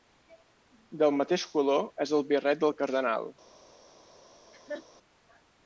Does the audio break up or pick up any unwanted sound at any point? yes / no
yes